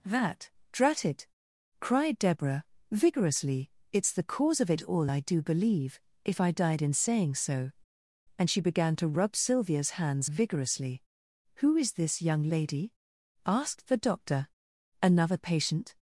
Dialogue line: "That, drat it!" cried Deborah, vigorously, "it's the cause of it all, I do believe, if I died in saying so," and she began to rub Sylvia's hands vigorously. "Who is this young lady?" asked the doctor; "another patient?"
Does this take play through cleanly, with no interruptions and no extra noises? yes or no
yes